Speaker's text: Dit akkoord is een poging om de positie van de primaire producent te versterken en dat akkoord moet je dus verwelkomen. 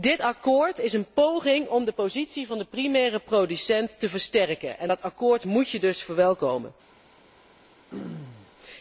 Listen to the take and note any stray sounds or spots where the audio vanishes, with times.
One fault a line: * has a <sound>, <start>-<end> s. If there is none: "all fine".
* has a throat clearing, 7.9-8.5 s